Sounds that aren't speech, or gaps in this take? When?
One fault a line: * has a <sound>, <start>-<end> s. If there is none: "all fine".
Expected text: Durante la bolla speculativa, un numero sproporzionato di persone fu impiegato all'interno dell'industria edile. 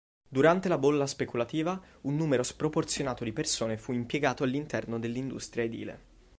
all fine